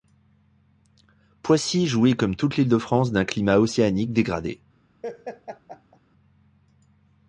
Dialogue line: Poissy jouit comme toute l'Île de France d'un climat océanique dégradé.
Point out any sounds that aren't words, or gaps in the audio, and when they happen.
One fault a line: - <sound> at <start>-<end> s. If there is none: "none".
- laugh at 5.0-6.0 s